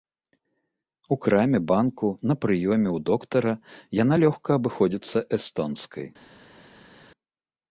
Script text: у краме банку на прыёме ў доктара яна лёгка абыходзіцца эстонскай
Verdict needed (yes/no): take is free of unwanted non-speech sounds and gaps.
yes